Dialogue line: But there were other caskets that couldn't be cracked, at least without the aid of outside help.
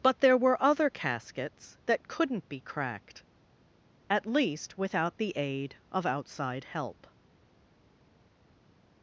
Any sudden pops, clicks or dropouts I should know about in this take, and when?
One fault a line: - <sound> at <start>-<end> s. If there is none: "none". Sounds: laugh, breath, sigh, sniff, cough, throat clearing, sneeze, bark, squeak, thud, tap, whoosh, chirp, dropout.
none